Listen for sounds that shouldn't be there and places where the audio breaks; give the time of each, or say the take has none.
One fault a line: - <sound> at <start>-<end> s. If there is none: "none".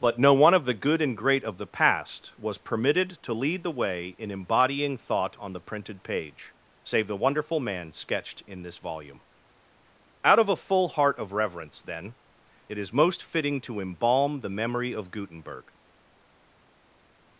none